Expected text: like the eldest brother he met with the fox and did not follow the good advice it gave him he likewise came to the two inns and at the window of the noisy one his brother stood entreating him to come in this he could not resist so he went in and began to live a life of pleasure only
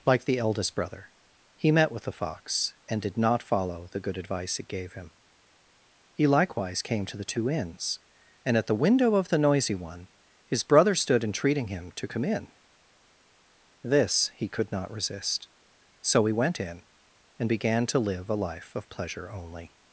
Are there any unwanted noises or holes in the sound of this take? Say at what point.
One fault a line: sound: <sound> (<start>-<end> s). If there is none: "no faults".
no faults